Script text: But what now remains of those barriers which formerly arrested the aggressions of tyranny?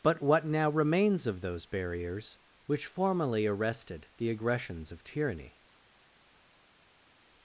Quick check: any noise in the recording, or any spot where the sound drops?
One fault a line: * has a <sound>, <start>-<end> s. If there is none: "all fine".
all fine